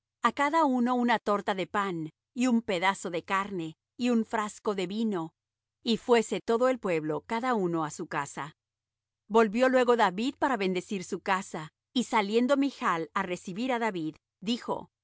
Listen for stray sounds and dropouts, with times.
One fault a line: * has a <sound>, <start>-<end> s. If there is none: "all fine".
all fine